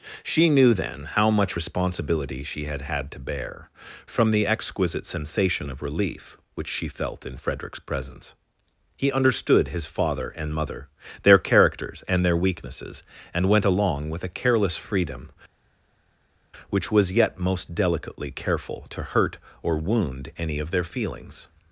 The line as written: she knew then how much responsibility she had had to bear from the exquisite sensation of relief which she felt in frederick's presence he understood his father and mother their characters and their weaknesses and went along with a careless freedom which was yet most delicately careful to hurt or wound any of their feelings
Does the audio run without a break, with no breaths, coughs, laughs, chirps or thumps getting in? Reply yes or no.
yes